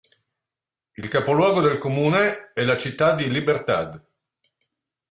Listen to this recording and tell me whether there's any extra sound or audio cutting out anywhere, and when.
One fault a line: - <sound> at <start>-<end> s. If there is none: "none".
none